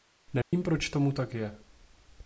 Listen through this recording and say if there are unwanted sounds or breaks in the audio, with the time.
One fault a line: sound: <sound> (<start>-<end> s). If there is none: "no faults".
sound: dropout (0.4-0.5 s)